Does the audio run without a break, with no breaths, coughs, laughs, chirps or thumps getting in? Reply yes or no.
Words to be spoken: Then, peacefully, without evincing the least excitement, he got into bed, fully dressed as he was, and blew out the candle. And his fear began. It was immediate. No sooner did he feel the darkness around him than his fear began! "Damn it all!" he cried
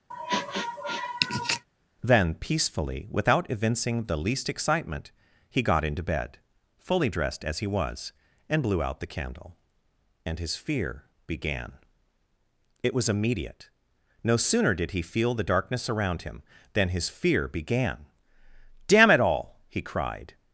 no